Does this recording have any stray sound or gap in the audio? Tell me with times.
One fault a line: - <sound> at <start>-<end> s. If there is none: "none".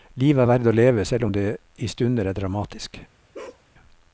- bark at 3.3-3.6 s